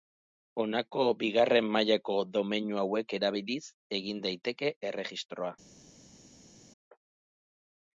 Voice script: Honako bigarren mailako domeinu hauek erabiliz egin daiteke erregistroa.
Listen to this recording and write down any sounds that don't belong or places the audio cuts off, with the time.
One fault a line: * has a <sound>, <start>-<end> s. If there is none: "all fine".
all fine